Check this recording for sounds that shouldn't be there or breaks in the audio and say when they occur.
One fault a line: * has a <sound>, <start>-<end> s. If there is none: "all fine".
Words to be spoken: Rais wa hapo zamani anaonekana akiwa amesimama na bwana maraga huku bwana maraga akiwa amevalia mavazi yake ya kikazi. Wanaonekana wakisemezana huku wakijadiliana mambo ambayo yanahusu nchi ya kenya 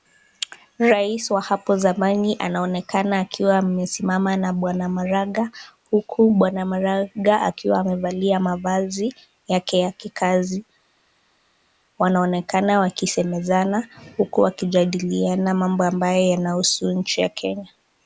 all fine